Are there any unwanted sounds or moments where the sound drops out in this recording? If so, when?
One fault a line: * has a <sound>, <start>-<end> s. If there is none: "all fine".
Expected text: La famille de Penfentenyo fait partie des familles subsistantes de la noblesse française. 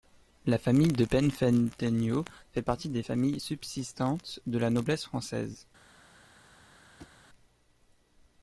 * has a thud, 7.0-7.2 s